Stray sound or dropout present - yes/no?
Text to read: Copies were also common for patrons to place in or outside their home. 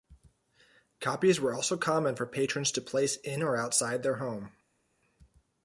no